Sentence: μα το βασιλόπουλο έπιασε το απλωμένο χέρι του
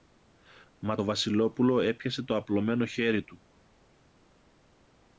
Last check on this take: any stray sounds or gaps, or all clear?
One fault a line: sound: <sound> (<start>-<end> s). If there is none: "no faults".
no faults